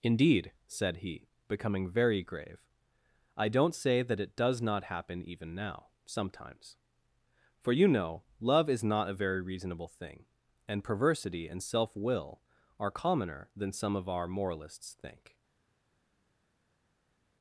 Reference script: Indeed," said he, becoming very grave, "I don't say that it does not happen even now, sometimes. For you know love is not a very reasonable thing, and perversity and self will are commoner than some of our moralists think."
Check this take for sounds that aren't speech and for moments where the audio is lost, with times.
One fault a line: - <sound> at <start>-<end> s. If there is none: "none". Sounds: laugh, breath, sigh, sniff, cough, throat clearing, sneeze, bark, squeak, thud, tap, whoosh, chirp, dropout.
none